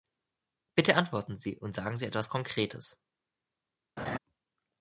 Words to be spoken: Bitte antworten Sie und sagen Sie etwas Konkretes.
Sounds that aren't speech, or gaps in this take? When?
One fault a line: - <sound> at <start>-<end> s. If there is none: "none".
- laugh at 4.0-4.2 s